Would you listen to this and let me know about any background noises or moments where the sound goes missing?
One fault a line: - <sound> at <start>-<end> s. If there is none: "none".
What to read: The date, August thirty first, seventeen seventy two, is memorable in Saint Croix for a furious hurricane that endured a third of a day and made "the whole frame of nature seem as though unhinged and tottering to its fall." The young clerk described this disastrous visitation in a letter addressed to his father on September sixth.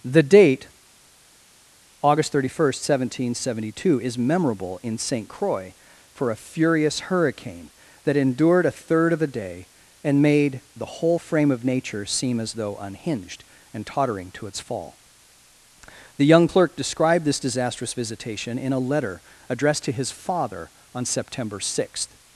none